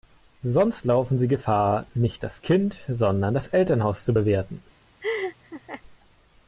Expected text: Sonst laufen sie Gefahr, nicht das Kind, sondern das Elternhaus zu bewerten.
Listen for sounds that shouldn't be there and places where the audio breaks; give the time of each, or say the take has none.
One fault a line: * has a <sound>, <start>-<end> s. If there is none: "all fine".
* has a laugh, 5.0-5.8 s